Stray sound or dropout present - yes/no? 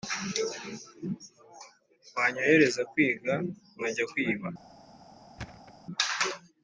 yes